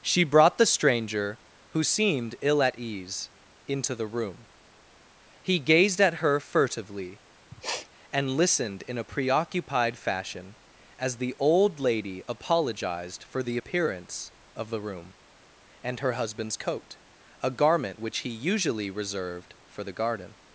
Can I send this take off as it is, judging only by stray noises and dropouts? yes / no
no